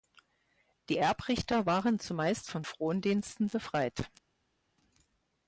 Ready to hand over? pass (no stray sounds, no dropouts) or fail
pass